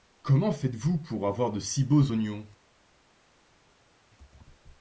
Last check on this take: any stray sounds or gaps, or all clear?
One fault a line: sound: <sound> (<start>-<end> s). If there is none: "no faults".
no faults